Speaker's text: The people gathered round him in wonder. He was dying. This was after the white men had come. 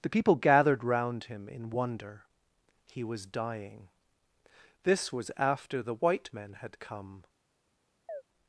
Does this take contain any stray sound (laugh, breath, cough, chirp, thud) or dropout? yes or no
yes